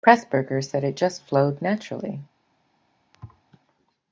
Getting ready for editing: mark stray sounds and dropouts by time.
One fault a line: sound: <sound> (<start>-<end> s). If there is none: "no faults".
sound: thud (3.1-3.4 s)